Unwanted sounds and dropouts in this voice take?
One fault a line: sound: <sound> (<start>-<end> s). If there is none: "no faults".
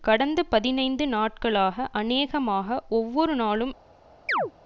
sound: chirp (4.3-4.5 s)